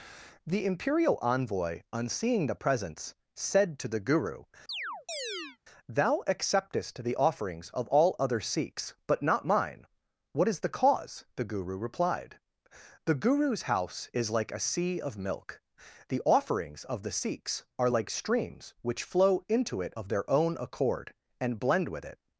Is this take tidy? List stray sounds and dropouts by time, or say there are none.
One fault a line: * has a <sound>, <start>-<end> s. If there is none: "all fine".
* has a chirp, 4.7-5.6 s